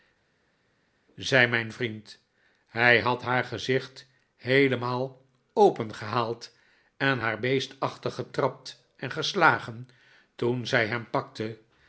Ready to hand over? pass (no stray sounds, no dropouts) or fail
pass